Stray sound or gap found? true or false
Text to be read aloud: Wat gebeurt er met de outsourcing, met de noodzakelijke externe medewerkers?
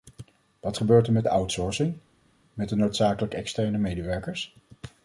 false